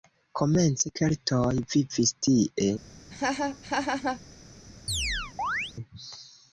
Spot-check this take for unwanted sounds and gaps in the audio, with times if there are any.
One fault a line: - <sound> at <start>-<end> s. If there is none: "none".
- laugh at 3.1-4.2 s
- chirp at 4.9-5.7 s